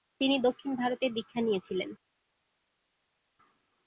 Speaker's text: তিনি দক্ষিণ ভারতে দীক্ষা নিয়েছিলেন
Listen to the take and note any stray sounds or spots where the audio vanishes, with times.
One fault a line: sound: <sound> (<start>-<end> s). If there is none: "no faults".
no faults